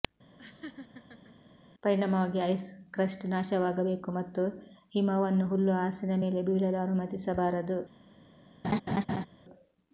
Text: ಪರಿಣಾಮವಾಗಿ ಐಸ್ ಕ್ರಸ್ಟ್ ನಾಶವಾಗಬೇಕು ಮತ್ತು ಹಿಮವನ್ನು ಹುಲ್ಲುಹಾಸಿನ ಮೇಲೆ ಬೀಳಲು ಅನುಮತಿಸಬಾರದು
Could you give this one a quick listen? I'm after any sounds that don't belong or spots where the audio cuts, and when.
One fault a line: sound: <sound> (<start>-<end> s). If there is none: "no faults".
sound: laugh (0.4-1.4 s)
sound: laugh (8.6-9.3 s)